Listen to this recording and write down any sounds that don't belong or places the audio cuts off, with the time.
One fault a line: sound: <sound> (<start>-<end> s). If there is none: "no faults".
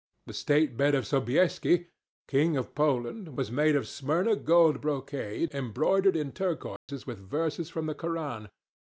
sound: dropout (6.8-6.9 s)